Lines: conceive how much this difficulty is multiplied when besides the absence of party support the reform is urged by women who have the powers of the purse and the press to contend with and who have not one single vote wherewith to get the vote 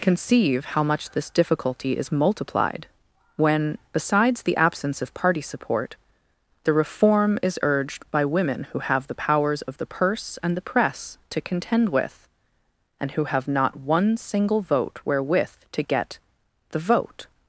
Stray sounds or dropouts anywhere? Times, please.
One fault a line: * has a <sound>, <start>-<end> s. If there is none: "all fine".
all fine